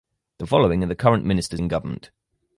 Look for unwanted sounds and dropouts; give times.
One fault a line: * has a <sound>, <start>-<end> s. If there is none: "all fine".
all fine